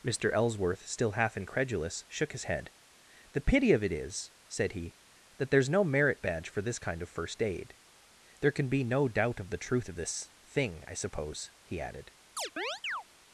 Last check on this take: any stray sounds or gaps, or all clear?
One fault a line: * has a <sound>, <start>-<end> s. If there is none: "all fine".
* has a chirp, 12.4-13.0 s